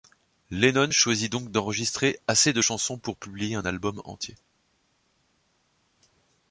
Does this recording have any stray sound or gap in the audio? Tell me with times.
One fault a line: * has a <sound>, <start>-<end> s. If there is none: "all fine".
all fine